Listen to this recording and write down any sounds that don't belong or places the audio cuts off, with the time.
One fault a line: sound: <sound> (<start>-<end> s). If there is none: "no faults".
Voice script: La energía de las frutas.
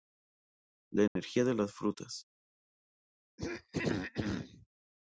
sound: dropout (1.1-1.2 s)
sound: throat clearing (3.4-4.7 s)